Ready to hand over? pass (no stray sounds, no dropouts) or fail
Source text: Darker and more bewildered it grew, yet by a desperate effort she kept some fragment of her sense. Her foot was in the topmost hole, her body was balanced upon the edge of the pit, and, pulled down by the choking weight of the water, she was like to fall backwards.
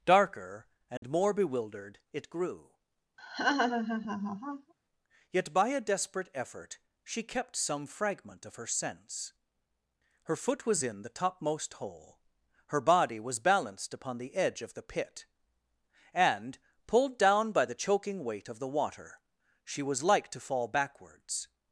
fail